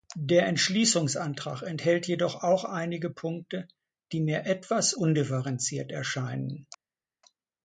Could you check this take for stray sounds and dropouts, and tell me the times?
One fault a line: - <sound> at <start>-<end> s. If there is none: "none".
none